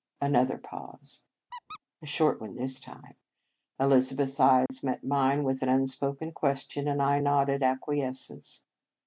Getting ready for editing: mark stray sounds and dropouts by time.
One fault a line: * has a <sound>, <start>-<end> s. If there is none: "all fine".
* has a squeak, 1.5-1.8 s
* has a dropout, 4.7-4.7 s